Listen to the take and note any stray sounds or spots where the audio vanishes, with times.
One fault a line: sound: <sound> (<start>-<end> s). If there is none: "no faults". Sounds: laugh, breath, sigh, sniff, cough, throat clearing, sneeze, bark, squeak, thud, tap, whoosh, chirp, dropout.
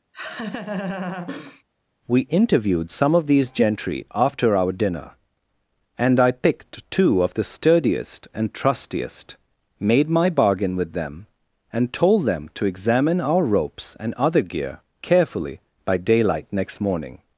sound: laugh (0.1-1.6 s)